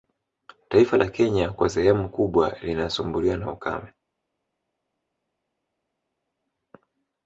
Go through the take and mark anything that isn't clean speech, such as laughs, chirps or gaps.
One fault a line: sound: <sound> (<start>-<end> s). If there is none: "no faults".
no faults